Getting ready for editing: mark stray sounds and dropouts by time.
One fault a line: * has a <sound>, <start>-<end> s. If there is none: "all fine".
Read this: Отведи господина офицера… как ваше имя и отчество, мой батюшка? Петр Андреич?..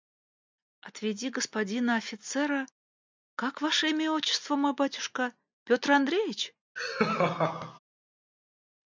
* has a laugh, 6.8-7.8 s